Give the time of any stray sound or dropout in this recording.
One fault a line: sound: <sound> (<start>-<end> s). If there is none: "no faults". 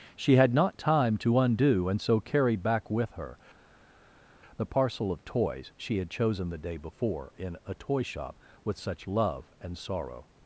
no faults